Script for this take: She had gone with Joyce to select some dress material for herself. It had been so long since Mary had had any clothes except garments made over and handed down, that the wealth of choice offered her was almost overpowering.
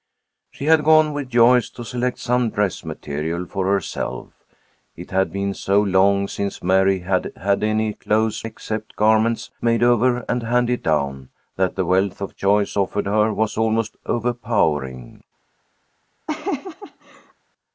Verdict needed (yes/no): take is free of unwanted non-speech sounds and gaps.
no